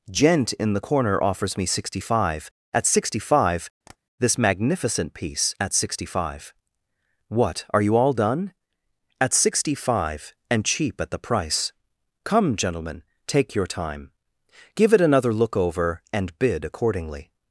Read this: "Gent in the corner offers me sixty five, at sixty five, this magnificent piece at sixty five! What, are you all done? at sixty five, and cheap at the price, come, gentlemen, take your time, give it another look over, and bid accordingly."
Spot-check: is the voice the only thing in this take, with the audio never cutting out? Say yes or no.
no